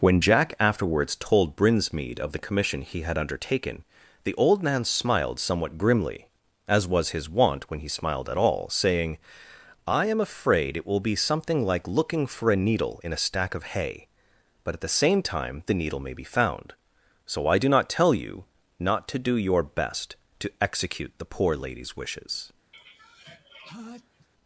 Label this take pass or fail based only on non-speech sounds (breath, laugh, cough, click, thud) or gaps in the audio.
fail